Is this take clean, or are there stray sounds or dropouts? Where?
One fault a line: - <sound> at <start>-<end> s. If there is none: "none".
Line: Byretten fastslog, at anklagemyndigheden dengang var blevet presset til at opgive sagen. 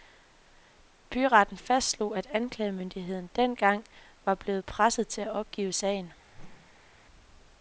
- whoosh at 6.3-7.1 s